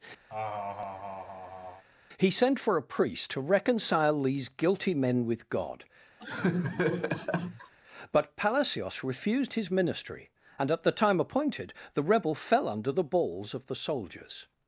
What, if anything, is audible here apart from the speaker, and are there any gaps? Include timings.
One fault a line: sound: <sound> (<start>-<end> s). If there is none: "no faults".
sound: laugh (0.3-1.8 s)
sound: laugh (6.2-7.7 s)